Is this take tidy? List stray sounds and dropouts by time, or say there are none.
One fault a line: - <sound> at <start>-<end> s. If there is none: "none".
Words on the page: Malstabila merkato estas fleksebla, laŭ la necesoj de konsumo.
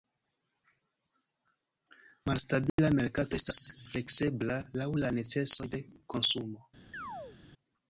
- dropout at 2.7-2.8 s
- chirp at 6.9-7.4 s